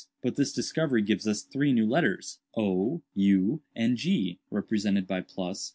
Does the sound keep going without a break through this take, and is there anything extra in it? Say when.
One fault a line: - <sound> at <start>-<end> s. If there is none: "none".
none